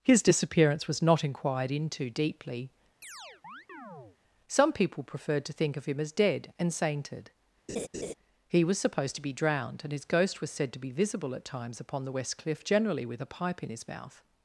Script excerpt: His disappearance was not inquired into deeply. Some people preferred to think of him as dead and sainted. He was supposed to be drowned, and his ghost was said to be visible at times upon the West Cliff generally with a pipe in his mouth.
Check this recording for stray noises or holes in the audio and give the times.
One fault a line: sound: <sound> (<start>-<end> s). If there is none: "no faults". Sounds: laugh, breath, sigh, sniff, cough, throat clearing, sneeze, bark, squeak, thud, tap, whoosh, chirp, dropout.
sound: chirp (3.0-4.2 s)
sound: laugh (7.7-8.1 s)